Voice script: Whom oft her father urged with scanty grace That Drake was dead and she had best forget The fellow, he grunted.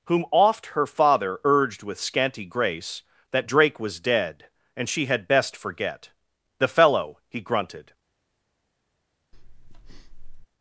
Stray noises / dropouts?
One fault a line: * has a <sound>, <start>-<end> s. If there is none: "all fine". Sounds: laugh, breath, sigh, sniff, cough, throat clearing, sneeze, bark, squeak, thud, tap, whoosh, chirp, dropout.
* has a breath, 9.3-10.5 s